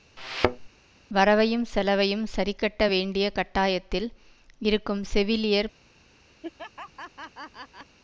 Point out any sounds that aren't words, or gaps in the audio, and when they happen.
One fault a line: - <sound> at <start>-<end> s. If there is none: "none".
- thud at 0.2-0.7 s
- laugh at 6.4-8.0 s